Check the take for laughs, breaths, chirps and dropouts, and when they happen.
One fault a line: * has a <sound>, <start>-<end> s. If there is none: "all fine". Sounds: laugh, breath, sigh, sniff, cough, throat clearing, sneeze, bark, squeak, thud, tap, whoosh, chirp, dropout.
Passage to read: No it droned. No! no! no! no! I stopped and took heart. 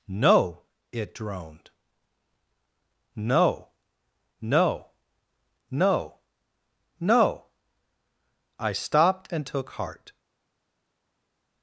all fine